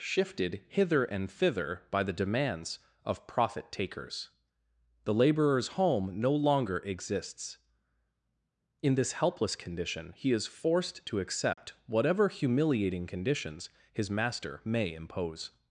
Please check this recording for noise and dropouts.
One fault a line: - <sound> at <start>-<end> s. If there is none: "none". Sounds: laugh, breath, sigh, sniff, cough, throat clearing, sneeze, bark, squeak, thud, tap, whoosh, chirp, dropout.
- dropout at 11.5-11.6 s